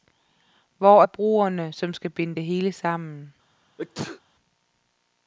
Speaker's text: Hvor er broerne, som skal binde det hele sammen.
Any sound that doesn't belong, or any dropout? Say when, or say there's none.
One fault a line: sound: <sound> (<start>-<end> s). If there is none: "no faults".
sound: sneeze (3.8-4.2 s)